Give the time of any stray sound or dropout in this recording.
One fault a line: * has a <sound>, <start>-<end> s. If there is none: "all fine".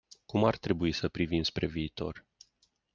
all fine